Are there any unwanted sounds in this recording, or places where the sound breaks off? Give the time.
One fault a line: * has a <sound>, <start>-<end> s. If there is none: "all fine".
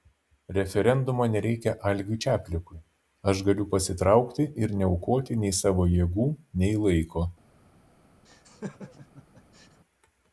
* has a laugh, 8.2-9.8 s